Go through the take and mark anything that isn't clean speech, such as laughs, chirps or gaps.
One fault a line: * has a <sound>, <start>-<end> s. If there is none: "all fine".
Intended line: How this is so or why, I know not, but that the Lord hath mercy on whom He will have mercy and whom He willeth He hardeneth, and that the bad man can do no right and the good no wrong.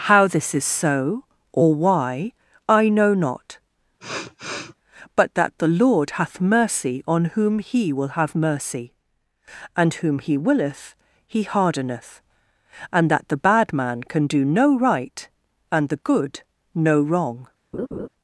* has a sniff, 4.0-4.8 s
* has a laugh, 17.7-18.1 s